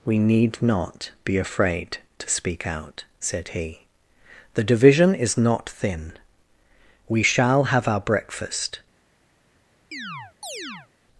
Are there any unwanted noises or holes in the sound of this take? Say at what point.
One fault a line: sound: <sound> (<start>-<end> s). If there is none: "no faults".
sound: chirp (9.9-10.9 s)